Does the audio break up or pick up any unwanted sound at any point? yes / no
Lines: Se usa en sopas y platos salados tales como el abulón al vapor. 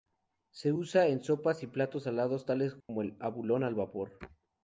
yes